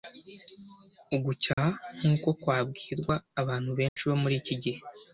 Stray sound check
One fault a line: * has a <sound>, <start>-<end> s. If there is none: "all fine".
* has a dropout, 1.5-1.6 s
* has a dropout, 3.9-4.0 s